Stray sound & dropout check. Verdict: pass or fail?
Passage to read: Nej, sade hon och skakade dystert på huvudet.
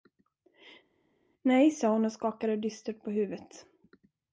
pass